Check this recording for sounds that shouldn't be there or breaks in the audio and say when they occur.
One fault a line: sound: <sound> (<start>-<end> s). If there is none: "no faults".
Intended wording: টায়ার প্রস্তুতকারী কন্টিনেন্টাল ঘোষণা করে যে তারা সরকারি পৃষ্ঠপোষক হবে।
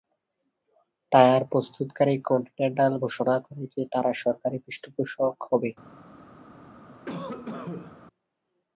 sound: cough (7.1-8.0 s)